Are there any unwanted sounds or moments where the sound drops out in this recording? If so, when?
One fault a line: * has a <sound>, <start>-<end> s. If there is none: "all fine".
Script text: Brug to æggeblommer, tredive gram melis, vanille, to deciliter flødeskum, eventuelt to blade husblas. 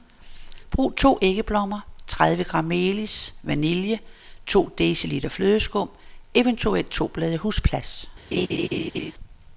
* has a laugh, 8.3-9.1 s